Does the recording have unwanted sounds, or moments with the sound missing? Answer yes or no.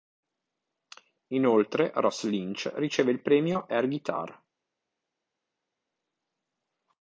no